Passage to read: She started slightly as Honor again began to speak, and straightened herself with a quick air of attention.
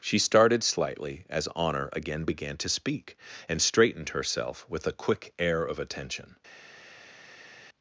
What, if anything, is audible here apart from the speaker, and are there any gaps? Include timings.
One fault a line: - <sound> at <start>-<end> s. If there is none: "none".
none